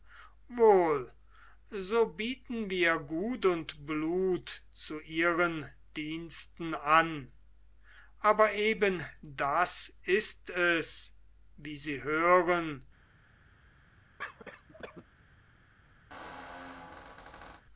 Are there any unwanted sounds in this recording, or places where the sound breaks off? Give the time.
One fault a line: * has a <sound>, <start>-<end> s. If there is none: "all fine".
* has a cough, 14.2-15.1 s
* has a squeak, 16.1-17.6 s